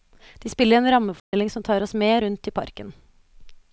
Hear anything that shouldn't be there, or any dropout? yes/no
yes